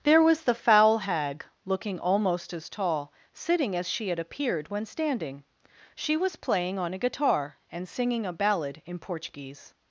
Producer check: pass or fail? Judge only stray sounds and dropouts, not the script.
pass